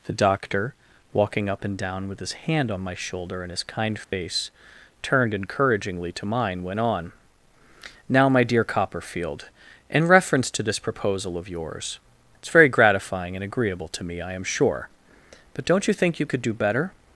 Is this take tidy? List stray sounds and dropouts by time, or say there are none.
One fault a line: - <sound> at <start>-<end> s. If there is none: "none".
- dropout at 4.0-4.1 s